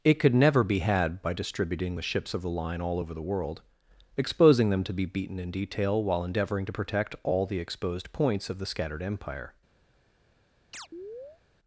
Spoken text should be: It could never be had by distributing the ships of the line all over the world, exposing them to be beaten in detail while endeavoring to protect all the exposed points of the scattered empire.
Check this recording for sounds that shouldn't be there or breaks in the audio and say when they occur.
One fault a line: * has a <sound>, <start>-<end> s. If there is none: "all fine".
* has a chirp, 10.7-11.4 s